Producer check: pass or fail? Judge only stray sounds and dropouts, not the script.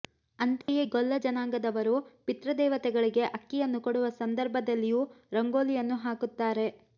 fail